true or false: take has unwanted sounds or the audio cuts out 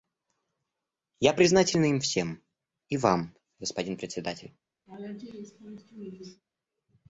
true